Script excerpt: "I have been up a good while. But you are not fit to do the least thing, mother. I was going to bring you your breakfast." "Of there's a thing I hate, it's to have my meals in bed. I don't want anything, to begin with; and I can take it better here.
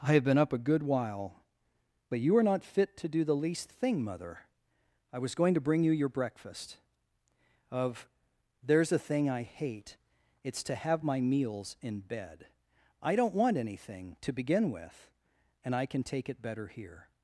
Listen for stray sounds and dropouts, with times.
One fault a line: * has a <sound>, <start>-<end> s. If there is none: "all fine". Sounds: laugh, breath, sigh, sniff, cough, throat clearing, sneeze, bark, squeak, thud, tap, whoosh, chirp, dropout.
all fine